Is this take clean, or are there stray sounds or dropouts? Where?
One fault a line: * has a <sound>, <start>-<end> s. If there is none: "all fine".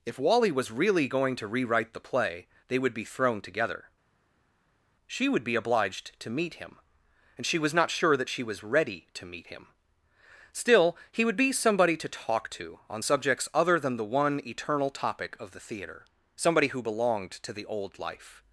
all fine